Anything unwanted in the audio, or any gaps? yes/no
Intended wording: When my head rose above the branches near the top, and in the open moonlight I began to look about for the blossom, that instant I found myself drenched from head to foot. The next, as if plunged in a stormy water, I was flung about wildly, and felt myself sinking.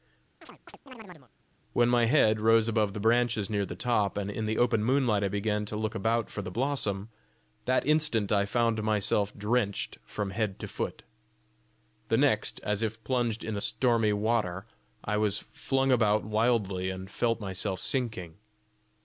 yes